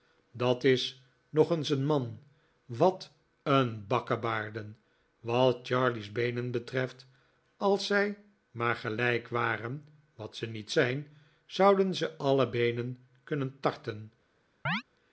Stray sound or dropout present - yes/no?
yes